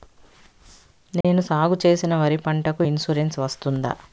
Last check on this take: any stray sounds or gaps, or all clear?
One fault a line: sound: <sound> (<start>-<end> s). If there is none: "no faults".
sound: dropout (1.2-1.2 s)